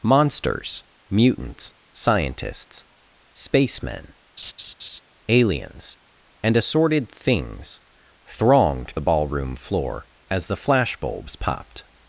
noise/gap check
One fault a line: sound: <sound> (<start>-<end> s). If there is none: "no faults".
sound: laugh (4.4-5.0 s)